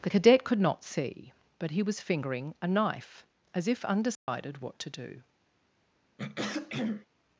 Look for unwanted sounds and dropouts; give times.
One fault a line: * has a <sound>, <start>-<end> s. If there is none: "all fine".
* has a dropout, 4.1-4.3 s
* has a throat clearing, 6.2-7.1 s